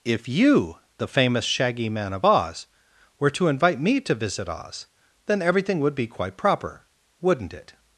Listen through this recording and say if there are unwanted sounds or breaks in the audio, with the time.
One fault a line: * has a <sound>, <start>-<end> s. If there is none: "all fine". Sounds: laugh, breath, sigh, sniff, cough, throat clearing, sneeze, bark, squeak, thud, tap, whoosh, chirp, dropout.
all fine